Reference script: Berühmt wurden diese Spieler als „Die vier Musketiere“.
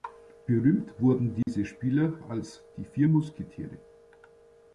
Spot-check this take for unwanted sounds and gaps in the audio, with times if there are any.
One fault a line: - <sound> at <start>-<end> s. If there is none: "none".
- dropout at 1.4-1.5 s